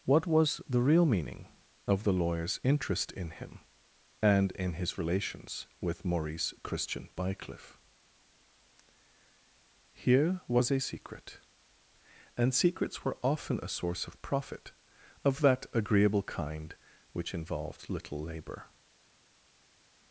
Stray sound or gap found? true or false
false